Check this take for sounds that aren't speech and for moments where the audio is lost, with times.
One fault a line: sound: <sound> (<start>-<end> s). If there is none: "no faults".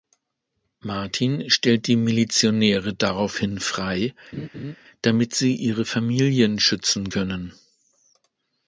sound: laugh (4.3-4.8 s)